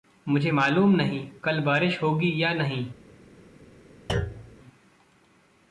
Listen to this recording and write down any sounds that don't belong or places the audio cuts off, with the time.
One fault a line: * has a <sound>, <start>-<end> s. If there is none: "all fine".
* has a thud, 4.1-4.6 s